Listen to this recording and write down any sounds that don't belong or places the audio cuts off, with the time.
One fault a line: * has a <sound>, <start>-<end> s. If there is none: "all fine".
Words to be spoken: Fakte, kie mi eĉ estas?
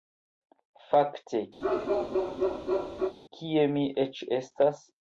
* has a bark, 1.6-3.2 s